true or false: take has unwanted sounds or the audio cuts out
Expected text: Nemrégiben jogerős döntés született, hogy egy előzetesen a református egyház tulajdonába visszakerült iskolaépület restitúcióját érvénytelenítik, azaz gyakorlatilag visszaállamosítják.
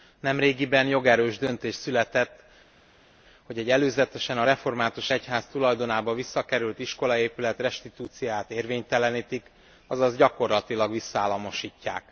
false